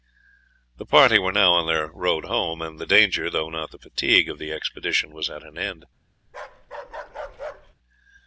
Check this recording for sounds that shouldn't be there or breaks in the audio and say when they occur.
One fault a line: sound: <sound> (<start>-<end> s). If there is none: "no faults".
sound: bark (6.3-7.7 s)